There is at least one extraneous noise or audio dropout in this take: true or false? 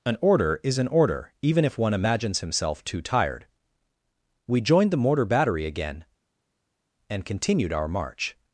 false